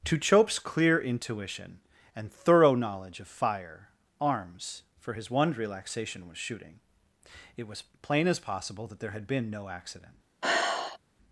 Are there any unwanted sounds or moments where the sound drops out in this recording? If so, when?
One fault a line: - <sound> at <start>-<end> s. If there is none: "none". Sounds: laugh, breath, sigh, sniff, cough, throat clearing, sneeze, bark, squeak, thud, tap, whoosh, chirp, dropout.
- sigh at 10.4-11.0 s